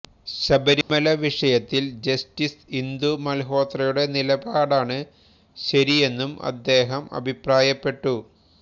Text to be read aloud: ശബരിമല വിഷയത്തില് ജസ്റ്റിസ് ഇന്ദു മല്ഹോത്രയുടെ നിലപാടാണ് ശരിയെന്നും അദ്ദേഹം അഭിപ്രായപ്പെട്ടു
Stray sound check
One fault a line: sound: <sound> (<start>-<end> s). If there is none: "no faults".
sound: dropout (0.8-0.9 s)